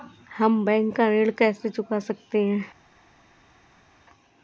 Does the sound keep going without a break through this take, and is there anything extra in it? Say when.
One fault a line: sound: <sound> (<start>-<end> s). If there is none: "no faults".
no faults